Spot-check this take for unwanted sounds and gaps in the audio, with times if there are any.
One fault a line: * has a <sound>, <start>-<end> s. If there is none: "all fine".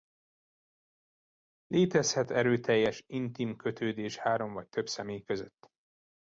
all fine